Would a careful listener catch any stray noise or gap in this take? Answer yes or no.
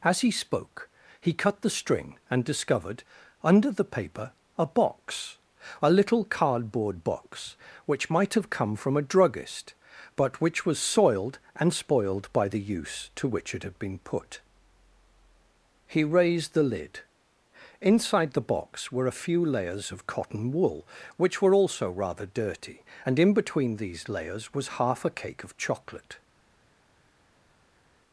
no